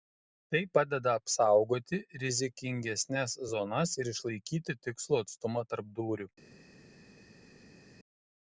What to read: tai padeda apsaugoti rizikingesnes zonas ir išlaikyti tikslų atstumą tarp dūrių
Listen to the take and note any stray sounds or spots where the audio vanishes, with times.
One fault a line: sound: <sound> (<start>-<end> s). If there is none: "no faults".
no faults